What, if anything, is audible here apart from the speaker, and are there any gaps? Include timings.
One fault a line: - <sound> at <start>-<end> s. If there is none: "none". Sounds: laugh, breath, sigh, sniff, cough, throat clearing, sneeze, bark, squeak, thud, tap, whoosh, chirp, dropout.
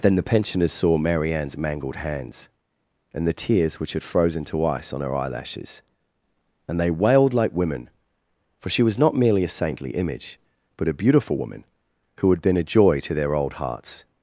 none